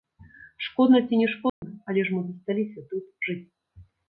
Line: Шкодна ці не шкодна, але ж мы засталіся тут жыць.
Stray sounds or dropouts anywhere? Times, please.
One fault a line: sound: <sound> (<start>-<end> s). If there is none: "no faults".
sound: dropout (1.5-1.6 s)